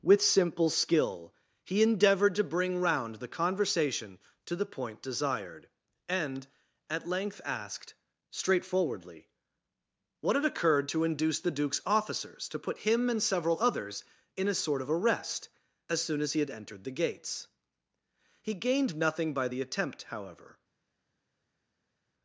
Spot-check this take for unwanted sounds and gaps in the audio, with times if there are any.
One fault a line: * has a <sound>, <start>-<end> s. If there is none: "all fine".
all fine